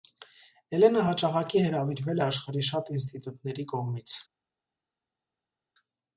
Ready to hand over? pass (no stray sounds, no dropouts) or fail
pass